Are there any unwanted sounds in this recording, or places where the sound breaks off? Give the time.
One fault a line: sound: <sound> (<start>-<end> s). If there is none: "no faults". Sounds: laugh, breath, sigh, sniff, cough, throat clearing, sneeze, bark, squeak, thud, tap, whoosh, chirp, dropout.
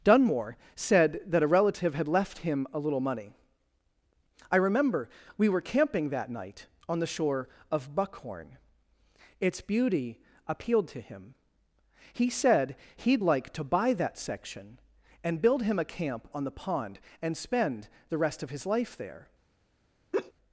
sound: laugh (20.1-20.3 s)